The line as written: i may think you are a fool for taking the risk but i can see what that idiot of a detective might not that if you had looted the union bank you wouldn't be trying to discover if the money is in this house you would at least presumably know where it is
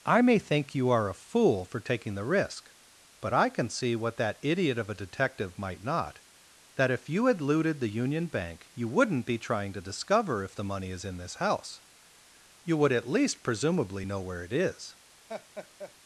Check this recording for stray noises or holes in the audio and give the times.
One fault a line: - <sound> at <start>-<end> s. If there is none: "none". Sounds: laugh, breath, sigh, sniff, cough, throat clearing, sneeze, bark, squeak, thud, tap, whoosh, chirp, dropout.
- laugh at 15.3-15.9 s